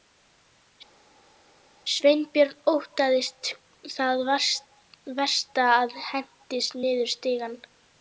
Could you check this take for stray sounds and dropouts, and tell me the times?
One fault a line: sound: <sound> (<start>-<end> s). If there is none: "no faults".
no faults